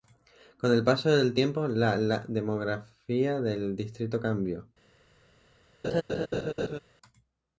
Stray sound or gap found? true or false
true